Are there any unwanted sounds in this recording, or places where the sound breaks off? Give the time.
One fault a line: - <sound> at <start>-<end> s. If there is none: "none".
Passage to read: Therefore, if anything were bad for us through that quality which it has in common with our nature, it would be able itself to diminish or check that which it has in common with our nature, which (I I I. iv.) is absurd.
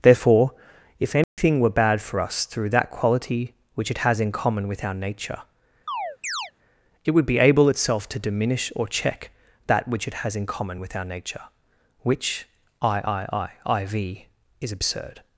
- dropout at 1.2-1.4 s
- chirp at 5.9-6.5 s